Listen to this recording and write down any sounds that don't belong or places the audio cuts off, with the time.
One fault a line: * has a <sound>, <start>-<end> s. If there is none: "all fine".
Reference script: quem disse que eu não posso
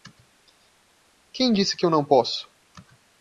all fine